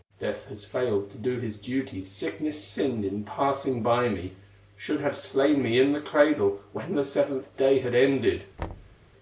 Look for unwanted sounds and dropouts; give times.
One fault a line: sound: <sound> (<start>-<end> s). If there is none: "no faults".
sound: thud (8.6-9.0 s)